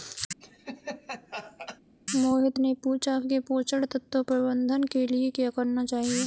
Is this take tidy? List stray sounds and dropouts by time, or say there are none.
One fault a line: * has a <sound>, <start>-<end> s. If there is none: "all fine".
* has a laugh, 0.4-1.8 s